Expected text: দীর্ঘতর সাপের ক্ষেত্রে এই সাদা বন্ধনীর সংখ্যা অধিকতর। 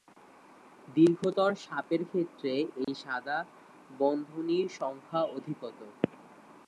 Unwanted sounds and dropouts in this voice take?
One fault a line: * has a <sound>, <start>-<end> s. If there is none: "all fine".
* has a dropout, 2.8-2.9 s